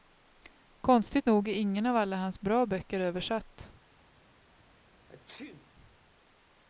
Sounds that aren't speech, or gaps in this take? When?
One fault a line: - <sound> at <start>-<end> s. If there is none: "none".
- sneeze at 5.1-5.7 s